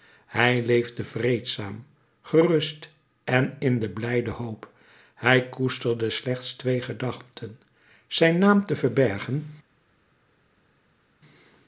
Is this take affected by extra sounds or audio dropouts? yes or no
no